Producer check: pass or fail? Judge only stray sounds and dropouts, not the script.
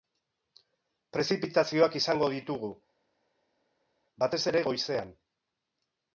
pass